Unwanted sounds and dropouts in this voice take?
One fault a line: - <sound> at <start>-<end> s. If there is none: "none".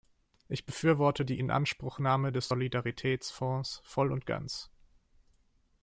none